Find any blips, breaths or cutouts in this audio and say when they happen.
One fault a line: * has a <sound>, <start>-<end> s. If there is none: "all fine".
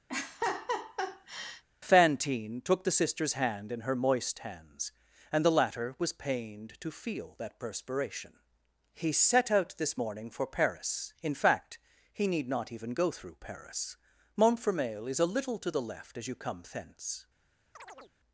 * has a laugh, 0.1-1.6 s
* has a chirp, 17.8-18.1 s